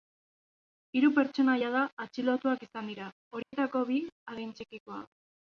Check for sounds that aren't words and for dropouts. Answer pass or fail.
fail